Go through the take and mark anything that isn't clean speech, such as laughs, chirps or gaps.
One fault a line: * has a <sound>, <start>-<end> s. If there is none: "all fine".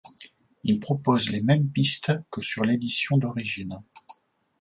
all fine